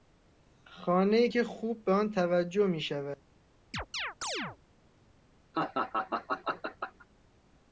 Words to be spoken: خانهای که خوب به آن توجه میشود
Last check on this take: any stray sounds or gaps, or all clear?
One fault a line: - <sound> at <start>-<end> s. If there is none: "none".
- chirp at 3.7-4.6 s
- laugh at 5.5-7.1 s